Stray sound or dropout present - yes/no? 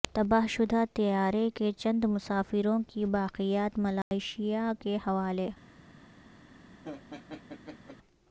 yes